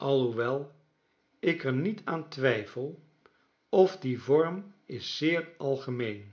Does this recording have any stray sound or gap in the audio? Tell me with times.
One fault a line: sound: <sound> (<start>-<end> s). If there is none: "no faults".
no faults